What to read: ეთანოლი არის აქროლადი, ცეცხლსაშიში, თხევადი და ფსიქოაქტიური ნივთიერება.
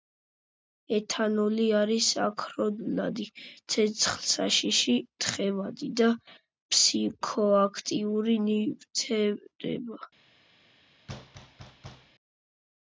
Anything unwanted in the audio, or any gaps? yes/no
yes